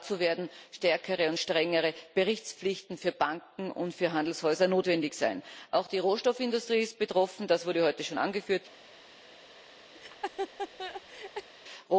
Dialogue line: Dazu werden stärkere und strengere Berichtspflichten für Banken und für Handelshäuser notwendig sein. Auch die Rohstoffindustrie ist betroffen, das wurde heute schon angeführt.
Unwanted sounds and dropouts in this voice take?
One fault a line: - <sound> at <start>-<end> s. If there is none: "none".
- laugh at 9.9-11.5 s